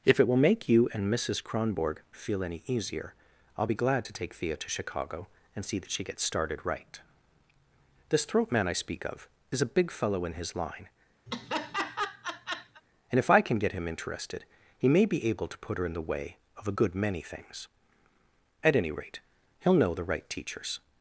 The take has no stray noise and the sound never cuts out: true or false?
false